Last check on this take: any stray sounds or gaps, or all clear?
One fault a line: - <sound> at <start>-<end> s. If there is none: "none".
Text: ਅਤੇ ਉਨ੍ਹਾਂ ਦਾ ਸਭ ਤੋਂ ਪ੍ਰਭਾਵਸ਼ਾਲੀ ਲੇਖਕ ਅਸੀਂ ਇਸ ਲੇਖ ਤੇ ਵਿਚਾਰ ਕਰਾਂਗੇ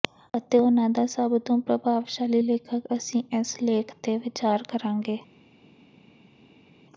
none